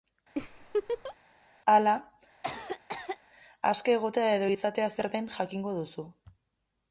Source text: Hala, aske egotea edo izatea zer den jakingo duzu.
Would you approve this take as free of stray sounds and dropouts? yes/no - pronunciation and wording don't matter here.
no